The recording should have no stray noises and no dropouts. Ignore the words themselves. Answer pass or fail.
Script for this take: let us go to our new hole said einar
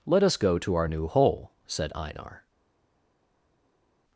pass